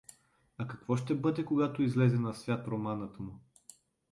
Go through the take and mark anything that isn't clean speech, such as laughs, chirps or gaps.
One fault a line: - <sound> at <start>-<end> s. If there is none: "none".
none